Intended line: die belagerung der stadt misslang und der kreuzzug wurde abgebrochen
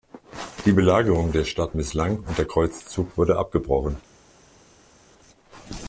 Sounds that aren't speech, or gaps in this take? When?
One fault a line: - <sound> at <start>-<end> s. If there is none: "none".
none